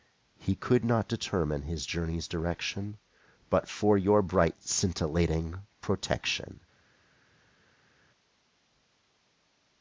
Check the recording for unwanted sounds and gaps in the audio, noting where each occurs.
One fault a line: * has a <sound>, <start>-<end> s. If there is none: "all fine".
all fine